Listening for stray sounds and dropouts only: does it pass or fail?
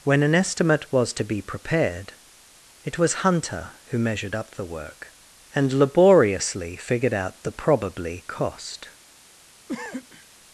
fail